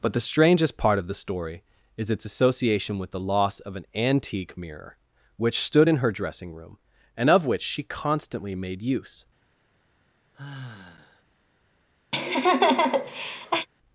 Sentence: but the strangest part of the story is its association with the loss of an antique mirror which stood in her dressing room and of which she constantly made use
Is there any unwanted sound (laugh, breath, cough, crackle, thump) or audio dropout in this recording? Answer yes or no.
yes